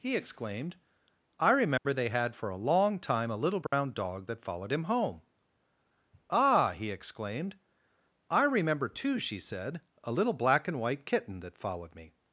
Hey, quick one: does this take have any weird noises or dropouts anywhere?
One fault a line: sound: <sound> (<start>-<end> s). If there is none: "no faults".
sound: dropout (1.8-1.9 s)
sound: dropout (3.7-3.7 s)